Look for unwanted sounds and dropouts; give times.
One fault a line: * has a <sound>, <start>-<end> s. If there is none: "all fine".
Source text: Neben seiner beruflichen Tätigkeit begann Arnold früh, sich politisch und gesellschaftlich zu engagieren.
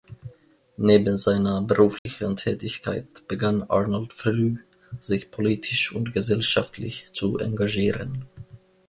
* has a dropout, 2.0-2.1 s